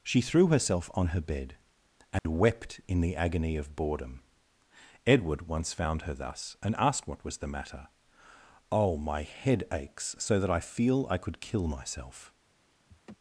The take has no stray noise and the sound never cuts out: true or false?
false